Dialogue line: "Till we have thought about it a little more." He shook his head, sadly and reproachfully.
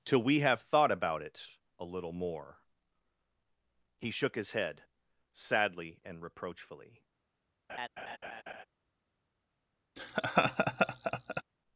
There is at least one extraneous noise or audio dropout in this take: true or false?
true